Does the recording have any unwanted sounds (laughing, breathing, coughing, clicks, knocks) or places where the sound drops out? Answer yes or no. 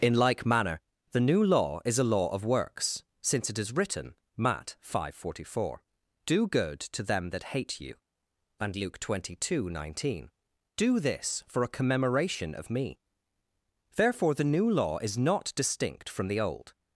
no